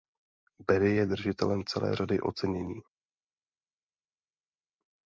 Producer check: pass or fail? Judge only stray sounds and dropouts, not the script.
pass